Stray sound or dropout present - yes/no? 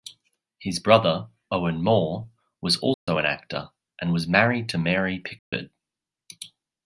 yes